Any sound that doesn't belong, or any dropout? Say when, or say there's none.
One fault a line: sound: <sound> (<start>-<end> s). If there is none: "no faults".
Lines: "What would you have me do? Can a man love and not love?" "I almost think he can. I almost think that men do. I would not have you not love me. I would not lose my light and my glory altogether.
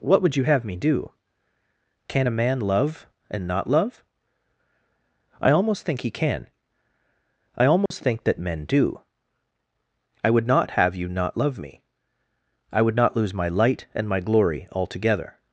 sound: dropout (7.9-7.9 s)